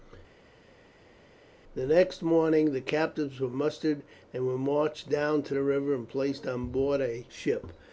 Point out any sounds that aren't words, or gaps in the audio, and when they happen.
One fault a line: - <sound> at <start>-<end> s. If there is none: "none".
none